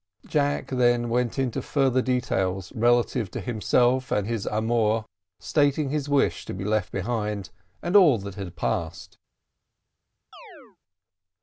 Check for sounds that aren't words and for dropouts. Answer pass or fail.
fail